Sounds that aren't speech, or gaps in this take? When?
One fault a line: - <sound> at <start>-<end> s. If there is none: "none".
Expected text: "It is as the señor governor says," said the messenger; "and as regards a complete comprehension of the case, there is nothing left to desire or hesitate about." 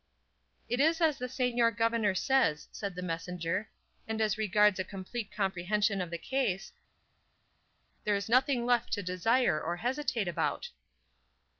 none